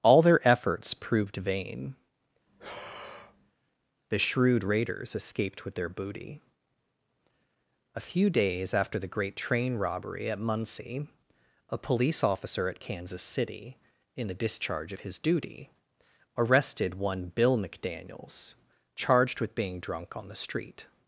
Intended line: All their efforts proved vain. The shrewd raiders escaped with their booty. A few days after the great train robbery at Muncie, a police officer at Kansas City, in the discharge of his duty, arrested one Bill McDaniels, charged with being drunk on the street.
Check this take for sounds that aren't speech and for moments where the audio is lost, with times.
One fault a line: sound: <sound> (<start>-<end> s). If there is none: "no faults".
sound: breath (2.5-3.5 s)